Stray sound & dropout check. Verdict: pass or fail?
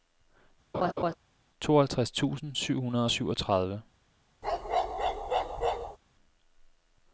fail